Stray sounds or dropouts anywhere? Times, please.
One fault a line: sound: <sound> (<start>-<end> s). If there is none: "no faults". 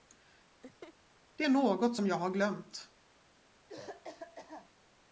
sound: laugh (0.6-0.9 s)
sound: cough (3.7-4.7 s)